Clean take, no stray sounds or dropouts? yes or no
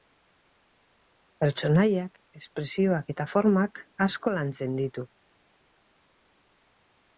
yes